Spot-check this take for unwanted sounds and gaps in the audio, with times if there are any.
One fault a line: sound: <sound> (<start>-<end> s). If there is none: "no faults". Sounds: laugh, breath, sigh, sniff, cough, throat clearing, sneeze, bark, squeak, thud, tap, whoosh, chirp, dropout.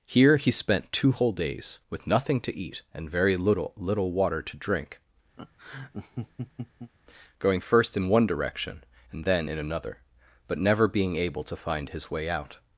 sound: laugh (5.4-6.9 s)